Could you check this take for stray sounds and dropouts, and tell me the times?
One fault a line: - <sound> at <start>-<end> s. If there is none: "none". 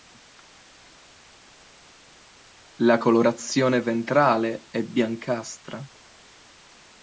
none